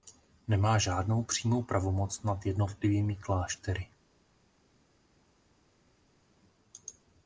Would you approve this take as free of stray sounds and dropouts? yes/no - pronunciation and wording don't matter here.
yes